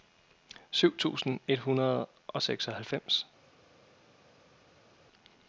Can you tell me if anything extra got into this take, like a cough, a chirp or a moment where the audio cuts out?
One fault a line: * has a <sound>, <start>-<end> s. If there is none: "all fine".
all fine